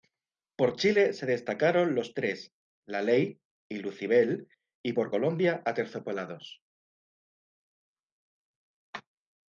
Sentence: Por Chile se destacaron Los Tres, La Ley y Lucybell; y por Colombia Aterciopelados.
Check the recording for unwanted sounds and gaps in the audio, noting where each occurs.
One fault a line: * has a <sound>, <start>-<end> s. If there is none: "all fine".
all fine